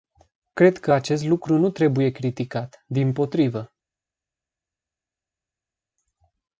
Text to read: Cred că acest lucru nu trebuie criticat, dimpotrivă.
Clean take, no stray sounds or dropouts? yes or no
yes